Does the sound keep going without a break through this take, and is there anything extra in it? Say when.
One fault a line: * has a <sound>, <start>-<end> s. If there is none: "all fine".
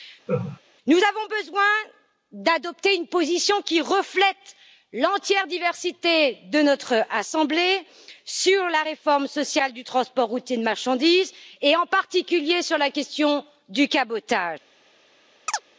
* has a laugh, 0.3-0.6 s
* has a chirp, 15.5-15.6 s